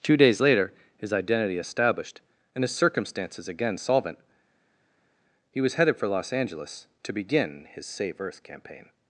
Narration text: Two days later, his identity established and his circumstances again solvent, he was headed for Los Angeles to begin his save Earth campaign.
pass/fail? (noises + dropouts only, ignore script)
pass